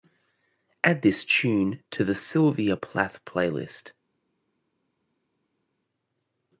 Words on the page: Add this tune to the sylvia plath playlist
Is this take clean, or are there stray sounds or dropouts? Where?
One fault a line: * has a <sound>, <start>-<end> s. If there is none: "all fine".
all fine